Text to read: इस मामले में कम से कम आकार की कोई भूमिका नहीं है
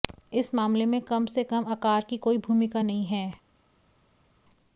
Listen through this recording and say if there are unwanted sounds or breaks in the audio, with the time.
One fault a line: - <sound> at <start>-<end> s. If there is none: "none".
none